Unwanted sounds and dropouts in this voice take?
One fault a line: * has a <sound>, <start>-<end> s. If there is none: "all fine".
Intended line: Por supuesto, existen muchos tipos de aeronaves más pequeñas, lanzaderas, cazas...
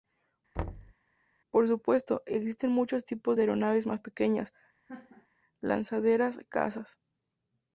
* has a thud, 0.6-0.9 s
* has a laugh, 4.9-5.3 s